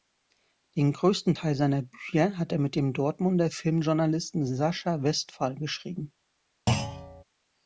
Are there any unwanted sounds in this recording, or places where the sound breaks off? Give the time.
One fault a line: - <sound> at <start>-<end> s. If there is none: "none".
- thud at 6.7-7.2 s